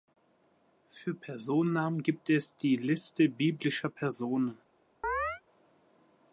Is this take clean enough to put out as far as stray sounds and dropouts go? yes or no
no